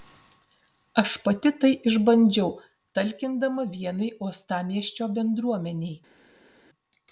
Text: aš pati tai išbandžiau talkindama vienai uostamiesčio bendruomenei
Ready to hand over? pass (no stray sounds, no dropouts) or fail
pass